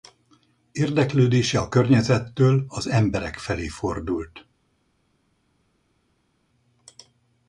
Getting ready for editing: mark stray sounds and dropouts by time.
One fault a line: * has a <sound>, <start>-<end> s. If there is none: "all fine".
all fine